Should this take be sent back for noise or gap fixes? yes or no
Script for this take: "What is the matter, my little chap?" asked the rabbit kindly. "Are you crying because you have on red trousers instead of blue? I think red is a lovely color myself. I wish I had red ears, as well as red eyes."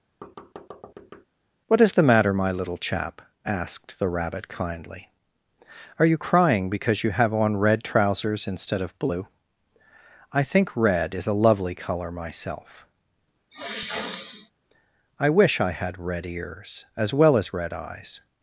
yes